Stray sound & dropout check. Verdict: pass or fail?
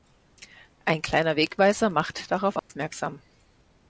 fail